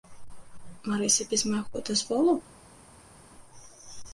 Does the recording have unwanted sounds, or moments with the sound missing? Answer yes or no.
no